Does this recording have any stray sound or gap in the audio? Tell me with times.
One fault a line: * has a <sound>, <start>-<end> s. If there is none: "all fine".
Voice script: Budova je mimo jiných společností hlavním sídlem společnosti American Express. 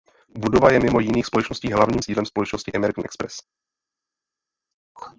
all fine